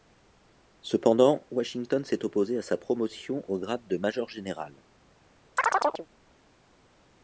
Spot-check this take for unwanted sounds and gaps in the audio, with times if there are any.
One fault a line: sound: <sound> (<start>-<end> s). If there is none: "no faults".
sound: chirp (5.6-6.1 s)